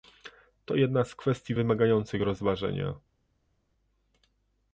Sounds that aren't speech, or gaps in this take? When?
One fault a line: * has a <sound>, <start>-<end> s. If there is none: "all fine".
all fine